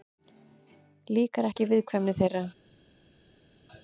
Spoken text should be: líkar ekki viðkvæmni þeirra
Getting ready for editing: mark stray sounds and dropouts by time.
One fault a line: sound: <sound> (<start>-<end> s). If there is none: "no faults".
no faults